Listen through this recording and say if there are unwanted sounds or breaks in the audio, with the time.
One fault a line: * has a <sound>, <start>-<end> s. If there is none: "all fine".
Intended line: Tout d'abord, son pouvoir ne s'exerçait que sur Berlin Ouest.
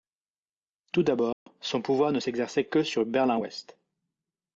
* has a dropout, 1.3-1.5 s